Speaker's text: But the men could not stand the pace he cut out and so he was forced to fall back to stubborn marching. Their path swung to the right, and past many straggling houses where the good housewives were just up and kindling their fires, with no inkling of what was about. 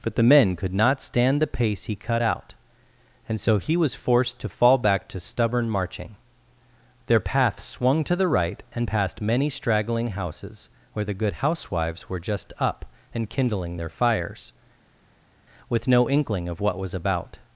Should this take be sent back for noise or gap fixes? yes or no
no